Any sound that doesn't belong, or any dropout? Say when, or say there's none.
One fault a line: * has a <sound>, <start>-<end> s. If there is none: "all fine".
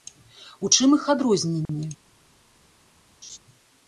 * has a dropout, 1.7-1.7 s
* has a laugh, 3.2-3.4 s